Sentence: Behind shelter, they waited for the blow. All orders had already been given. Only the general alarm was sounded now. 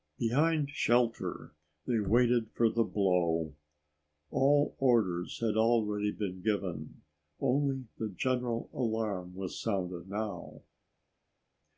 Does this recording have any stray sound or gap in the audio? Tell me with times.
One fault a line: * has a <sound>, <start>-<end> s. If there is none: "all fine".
all fine